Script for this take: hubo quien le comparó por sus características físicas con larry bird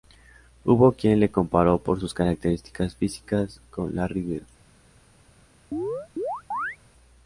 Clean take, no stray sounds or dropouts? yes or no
no